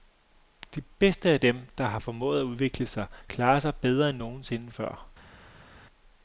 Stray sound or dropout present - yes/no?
no